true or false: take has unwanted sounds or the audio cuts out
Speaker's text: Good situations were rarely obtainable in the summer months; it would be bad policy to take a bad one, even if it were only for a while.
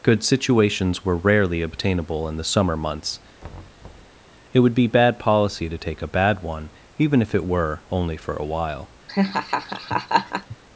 true